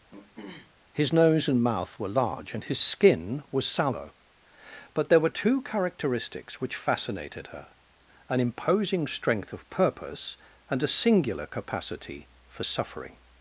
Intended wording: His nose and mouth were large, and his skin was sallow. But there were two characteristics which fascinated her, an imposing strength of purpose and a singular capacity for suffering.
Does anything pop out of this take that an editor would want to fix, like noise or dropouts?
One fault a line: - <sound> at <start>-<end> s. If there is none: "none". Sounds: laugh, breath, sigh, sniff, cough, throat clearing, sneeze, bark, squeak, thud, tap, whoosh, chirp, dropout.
- throat clearing at 0.1-0.8 s